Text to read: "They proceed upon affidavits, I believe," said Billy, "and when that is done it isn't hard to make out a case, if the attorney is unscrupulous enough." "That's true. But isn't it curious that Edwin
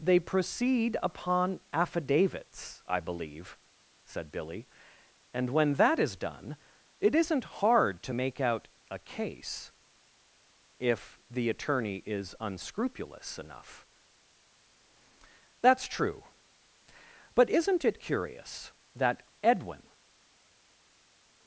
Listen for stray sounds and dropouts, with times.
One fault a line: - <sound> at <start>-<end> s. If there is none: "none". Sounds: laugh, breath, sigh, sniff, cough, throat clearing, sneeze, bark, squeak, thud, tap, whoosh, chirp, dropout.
none